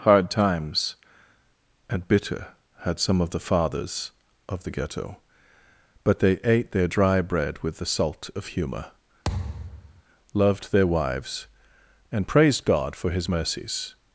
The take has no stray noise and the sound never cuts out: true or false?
false